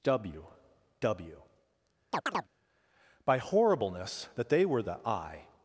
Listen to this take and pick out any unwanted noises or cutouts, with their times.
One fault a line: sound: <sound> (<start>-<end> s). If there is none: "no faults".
sound: chirp (2.1-2.5 s)